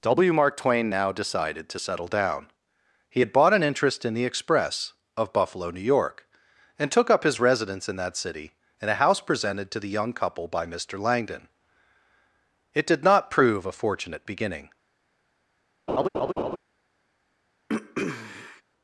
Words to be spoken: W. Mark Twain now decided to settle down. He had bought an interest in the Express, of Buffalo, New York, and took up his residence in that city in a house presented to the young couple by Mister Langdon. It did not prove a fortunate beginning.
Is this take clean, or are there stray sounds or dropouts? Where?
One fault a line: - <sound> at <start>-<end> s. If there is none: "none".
- laugh at 15.9-16.6 s
- throat clearing at 17.7-18.6 s